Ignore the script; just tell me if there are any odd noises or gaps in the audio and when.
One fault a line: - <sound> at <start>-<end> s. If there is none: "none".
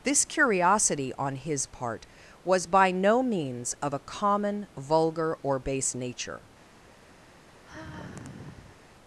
- sigh at 7.6-8.8 s